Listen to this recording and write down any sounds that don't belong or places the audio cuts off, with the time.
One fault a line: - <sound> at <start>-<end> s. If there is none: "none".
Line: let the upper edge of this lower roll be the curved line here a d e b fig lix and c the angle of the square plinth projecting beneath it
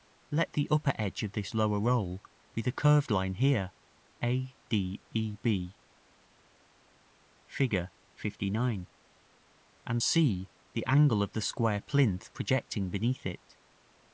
none